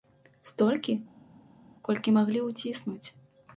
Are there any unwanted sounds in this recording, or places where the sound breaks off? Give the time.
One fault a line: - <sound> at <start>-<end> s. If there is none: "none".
none